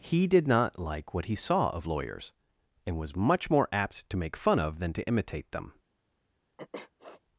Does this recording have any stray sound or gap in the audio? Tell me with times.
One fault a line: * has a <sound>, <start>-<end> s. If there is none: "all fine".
* has a sniff, 6.6-7.2 s